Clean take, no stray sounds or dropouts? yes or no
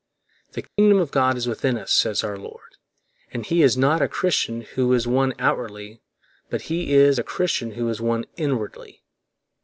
no